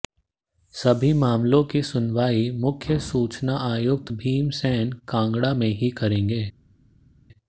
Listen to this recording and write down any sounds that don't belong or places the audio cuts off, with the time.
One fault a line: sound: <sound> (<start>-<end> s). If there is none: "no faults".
no faults